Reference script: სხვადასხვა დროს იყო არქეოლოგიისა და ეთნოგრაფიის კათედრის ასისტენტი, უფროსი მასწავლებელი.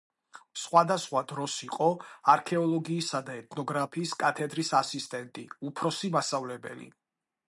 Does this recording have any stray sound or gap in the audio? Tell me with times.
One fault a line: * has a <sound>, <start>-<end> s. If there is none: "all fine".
all fine